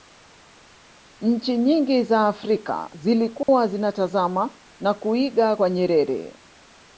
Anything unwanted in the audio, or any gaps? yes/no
yes